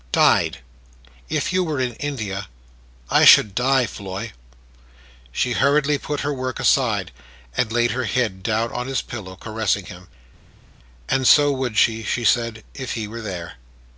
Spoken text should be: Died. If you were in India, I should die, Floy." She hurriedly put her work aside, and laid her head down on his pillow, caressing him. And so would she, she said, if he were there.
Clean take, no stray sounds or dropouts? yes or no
yes